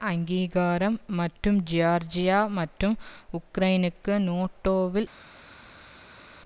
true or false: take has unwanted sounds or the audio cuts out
false